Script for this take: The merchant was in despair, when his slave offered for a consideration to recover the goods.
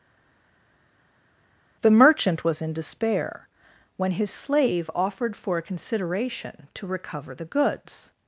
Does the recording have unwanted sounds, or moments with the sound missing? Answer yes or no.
no